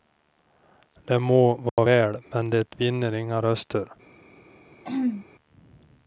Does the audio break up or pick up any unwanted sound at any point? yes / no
yes